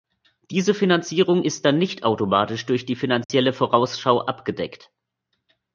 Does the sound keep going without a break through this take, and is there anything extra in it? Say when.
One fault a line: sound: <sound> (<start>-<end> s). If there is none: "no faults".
sound: dropout (3.2-3.3 s)